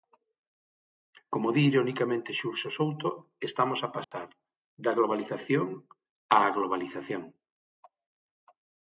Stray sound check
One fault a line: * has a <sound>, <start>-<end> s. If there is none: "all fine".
* has a dropout, 4.0-4.1 s